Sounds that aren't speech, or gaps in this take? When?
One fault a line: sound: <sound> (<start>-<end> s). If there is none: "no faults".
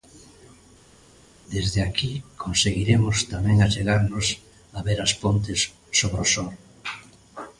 no faults